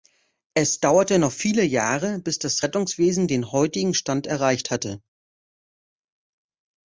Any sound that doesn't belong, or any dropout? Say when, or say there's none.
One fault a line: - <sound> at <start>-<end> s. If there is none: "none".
none